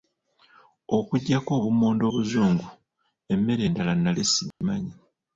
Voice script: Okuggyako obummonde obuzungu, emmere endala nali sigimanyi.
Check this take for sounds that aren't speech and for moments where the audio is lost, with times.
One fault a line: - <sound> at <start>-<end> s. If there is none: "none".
- dropout at 4.5-4.6 s